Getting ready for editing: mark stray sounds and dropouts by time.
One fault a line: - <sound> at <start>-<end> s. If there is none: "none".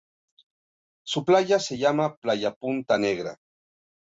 none